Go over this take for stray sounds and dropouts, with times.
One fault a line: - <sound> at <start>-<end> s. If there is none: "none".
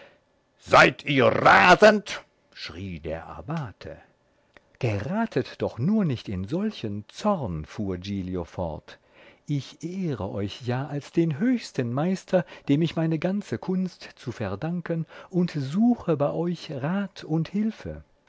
none